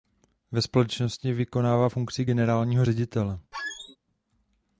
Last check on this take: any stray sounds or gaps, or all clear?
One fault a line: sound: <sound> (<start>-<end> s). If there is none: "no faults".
sound: squeak (3.5-4.0 s)